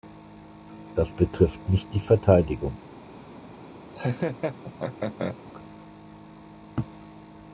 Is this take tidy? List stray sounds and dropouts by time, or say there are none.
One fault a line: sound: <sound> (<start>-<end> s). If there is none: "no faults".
sound: laugh (3.9-5.4 s)